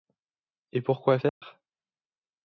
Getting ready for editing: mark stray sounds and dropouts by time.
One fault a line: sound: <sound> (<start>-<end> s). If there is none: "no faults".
sound: dropout (1.3-1.4 s)